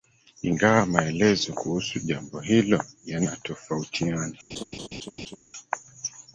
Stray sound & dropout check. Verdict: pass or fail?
fail